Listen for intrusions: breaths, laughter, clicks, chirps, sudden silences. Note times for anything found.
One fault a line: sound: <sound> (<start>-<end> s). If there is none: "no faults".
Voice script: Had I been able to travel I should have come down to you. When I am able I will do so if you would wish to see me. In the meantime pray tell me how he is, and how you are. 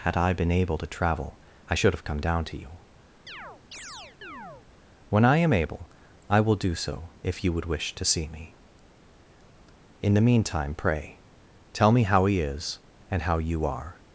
sound: chirp (3.3-4.7 s)